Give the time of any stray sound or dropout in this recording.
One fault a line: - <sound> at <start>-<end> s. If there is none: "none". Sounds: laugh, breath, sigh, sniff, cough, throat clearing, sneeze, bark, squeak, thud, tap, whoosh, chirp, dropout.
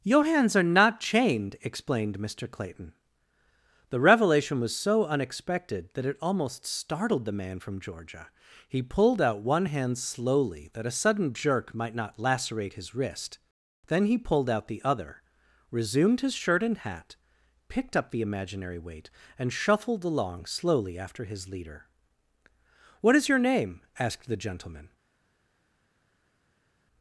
none